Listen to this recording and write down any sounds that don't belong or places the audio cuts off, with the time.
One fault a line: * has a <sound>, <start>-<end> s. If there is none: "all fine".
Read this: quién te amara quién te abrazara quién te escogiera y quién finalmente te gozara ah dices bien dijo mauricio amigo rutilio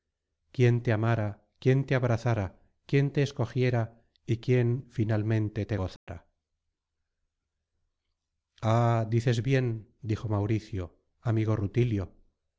* has a dropout, 6.0-6.1 s